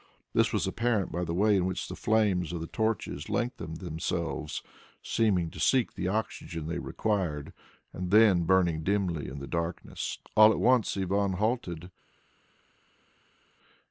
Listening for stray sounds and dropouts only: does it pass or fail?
pass